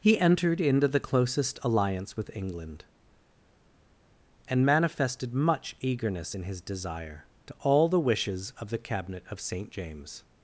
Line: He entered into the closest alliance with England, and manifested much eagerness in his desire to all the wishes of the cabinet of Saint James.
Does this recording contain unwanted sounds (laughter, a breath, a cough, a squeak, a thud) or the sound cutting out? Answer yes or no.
no